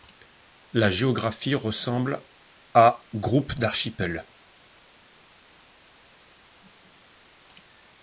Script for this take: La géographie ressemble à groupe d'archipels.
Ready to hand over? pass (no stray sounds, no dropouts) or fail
pass